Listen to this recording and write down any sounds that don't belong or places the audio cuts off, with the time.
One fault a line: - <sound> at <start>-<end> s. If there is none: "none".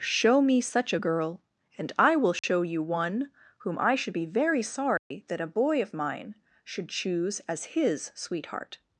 - dropout at 2.4-2.4 s
- dropout at 5.0-5.1 s